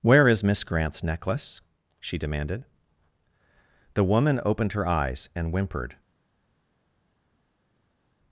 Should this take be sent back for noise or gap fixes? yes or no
no